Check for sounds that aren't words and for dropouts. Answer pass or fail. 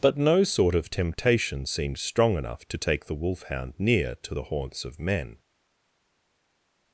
pass